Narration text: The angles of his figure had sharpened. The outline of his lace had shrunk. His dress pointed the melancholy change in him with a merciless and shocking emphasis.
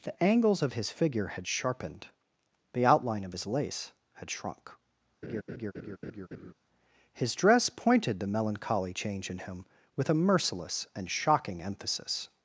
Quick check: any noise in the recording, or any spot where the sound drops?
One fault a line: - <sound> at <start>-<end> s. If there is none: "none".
- laugh at 5.2-6.5 s